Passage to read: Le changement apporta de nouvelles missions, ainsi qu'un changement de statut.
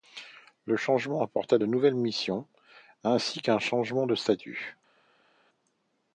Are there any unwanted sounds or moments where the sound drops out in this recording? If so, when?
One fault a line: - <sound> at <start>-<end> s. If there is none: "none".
none